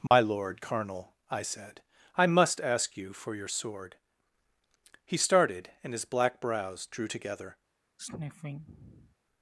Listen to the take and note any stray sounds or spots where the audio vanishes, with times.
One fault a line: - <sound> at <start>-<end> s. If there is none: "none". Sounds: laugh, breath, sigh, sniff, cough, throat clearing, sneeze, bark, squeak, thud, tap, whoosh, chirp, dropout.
- dropout at 0.1-0.1 s
- sniff at 8.0-9.2 s